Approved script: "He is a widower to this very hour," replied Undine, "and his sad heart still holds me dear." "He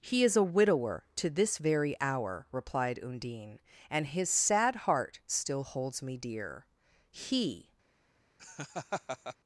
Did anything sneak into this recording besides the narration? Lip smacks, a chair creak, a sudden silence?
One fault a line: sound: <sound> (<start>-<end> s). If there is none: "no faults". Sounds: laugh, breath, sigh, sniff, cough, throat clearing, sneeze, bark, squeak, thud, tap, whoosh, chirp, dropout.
sound: laugh (8.4-9.4 s)